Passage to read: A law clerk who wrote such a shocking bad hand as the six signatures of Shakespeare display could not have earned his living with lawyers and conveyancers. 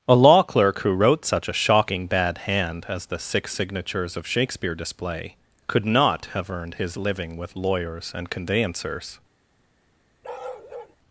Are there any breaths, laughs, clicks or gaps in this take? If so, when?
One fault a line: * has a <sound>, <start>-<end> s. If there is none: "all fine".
* has a bark, 10.2-11.0 s